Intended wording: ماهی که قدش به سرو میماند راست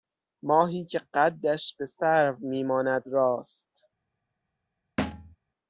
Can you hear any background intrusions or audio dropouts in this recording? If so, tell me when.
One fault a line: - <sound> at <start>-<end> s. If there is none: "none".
- thud at 5.0-5.4 s